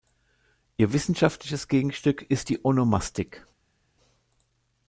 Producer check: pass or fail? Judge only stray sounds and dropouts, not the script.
pass